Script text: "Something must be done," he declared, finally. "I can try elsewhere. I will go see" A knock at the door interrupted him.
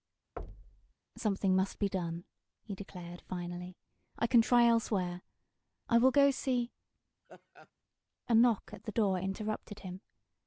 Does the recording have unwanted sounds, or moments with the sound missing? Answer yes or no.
yes